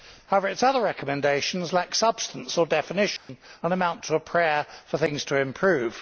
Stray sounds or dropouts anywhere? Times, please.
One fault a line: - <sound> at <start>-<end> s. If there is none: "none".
- dropout at 3.2-3.3 s